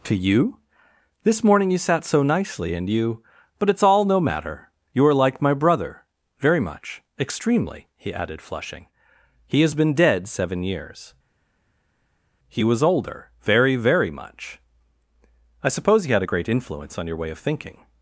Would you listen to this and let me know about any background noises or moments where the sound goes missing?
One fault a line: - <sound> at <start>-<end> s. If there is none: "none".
none